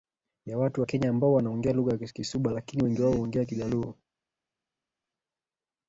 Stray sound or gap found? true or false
false